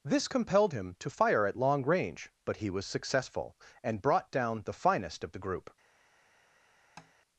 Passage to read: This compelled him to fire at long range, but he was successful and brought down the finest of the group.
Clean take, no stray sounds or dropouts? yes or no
no